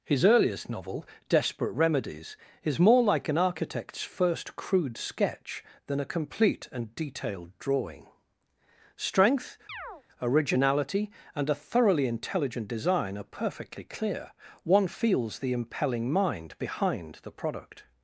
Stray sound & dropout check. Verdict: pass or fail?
fail